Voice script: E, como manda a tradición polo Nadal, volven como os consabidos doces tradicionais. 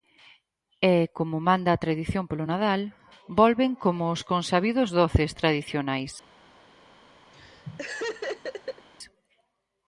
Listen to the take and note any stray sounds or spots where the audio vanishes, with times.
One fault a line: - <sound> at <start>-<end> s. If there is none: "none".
- laugh at 7.3-8.9 s